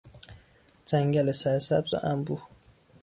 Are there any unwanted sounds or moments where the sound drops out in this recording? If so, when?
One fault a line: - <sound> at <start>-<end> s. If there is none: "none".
none